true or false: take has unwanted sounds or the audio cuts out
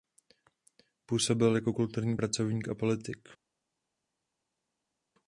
false